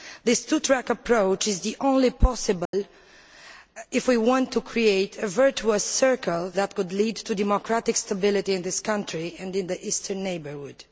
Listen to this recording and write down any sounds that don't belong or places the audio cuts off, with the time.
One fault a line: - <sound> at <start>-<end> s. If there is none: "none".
- dropout at 2.7-2.7 s